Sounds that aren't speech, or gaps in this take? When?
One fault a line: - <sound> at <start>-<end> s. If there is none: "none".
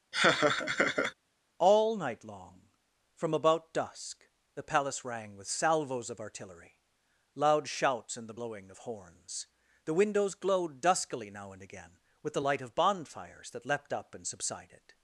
- laugh at 0.1-1.1 s